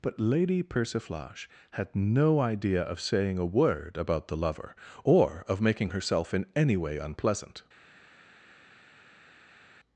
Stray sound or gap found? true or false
false